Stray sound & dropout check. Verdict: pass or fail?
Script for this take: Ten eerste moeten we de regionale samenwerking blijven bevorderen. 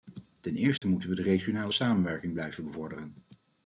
fail